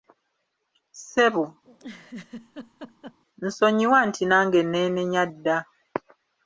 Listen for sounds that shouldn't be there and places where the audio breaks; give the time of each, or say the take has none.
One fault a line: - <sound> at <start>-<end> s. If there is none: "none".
- laugh at 1.6-3.2 s